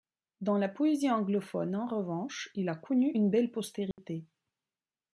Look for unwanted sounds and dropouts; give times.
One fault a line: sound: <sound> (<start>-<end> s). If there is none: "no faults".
sound: dropout (3.9-4.0 s)